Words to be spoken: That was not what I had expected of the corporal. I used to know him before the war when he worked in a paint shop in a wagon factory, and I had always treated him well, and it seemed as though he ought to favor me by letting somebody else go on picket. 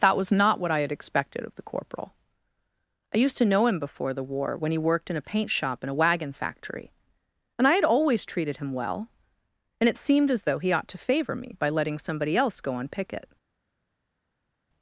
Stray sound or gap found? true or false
false